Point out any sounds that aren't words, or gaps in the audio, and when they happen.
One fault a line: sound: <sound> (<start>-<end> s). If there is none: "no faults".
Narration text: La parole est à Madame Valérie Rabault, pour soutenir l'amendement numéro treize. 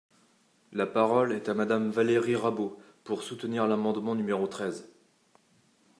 no faults